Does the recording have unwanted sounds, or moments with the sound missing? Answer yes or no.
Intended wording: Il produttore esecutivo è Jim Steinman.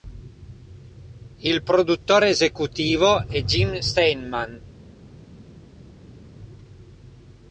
no